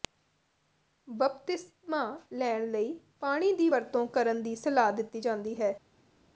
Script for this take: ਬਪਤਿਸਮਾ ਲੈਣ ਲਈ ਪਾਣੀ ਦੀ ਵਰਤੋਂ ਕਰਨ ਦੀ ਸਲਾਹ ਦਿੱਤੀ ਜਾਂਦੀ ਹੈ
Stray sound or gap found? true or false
false